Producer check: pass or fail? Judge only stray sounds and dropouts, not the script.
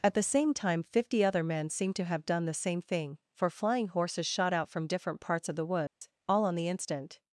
fail